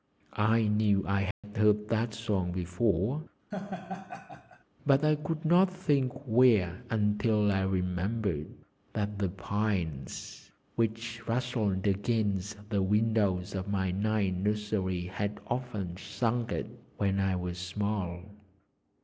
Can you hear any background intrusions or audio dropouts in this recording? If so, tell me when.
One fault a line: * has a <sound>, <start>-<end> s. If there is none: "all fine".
* has a dropout, 1.3-1.4 s
* has a laugh, 3.5-4.6 s